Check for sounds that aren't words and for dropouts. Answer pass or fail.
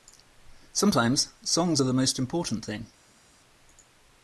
pass